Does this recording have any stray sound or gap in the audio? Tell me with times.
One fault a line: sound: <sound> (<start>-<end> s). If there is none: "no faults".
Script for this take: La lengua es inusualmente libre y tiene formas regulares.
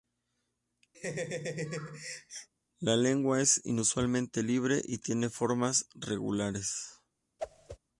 sound: laugh (0.9-2.5 s)
sound: whoosh (7.4-7.8 s)